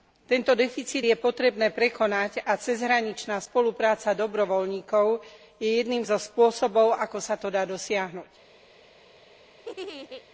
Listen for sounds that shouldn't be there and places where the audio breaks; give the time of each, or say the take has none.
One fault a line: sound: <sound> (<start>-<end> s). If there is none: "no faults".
sound: laugh (9.6-10.2 s)